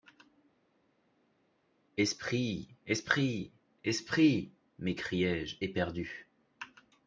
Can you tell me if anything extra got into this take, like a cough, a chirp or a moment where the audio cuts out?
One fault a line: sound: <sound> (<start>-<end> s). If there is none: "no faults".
no faults